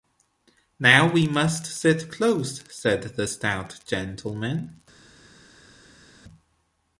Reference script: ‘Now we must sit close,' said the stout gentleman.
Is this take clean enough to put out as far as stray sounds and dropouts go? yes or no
yes